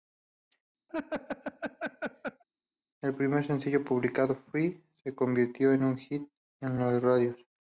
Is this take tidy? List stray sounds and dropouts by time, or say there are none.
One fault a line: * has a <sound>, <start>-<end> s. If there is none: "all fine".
* has a laugh, 0.9-2.4 s